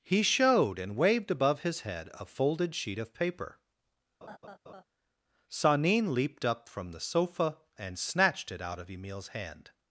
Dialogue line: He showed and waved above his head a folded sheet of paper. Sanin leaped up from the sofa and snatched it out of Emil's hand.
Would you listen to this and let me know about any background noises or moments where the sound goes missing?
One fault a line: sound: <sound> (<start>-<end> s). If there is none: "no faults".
sound: laugh (4.2-4.8 s)